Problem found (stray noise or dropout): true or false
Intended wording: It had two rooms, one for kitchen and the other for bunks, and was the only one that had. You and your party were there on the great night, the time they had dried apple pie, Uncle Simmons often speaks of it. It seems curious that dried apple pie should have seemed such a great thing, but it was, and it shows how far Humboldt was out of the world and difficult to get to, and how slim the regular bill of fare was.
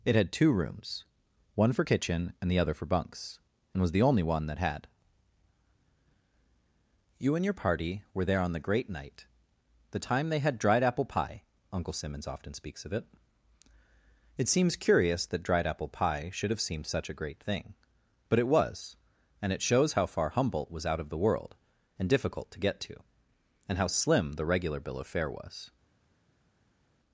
false